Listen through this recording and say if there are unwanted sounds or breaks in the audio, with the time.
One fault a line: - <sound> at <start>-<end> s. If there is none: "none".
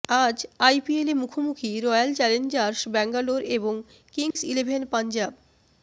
- dropout at 4.3-4.4 s